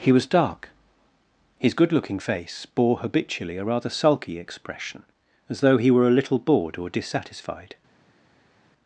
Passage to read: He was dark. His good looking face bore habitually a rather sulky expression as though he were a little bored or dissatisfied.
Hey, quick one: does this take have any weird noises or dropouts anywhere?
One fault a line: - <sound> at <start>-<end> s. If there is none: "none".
none